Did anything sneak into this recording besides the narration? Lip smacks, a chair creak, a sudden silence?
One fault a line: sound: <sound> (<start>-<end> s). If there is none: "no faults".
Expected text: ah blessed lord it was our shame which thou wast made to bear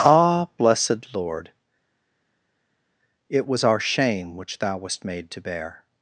no faults